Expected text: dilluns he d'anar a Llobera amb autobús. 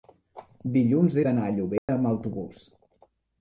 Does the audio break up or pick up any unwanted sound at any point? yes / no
yes